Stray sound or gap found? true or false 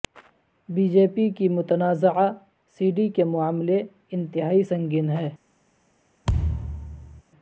true